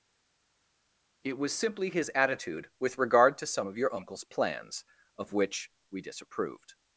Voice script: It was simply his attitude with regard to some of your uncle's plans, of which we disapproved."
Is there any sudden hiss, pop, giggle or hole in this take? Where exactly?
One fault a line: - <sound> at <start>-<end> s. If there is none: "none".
none